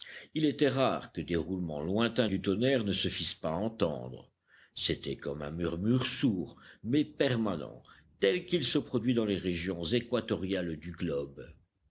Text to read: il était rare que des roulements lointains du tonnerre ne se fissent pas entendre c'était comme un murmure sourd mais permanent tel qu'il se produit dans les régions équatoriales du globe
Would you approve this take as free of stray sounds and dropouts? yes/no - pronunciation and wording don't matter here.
yes